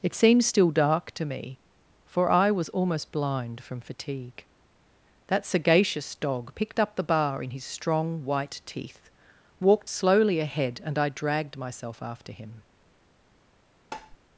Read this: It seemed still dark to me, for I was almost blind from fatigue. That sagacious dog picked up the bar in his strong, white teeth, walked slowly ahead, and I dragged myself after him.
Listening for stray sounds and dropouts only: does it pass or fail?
fail